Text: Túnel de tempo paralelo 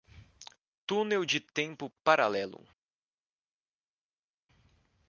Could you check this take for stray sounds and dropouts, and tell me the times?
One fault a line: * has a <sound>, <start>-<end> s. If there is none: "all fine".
all fine